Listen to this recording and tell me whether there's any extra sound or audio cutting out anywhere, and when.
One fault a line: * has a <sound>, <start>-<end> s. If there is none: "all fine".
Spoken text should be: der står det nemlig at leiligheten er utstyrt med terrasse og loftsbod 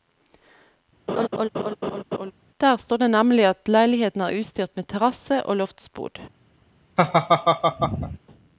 * has a laugh, 1.1-2.3 s
* has a laugh, 7.0-8.2 s